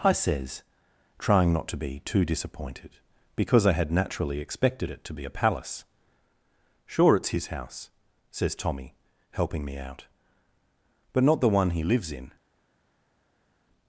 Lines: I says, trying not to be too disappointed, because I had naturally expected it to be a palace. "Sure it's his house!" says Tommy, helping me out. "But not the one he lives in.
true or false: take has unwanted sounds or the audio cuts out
false